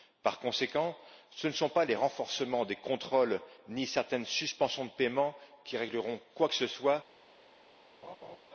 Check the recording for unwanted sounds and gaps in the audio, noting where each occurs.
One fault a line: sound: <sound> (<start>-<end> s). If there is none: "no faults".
sound: laugh (8.0-8.4 s)